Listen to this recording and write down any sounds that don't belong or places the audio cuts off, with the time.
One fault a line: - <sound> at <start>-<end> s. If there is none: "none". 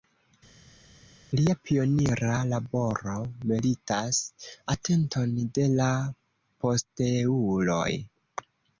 none